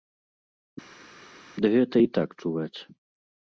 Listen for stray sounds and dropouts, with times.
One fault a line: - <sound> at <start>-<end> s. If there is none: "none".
none